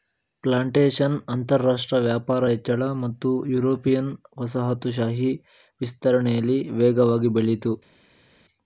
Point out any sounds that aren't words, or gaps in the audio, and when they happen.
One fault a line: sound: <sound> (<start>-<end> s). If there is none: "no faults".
no faults